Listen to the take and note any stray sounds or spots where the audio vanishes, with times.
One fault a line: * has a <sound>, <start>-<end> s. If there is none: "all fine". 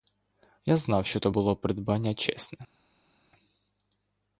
all fine